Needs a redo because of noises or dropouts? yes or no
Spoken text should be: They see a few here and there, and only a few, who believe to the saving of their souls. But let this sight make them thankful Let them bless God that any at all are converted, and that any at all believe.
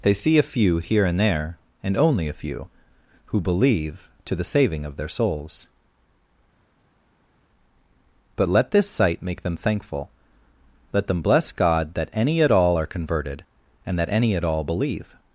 no